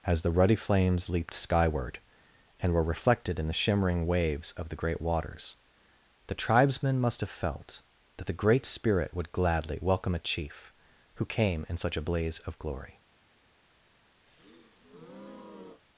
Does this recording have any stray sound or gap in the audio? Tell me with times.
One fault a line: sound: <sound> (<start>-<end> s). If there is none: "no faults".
sound: breath (14.3-15.8 s)